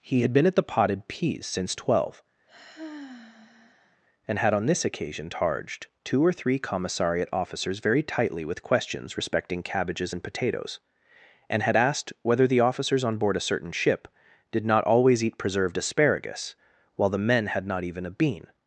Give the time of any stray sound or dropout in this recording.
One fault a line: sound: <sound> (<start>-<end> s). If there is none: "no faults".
sound: sigh (2.5-4.0 s)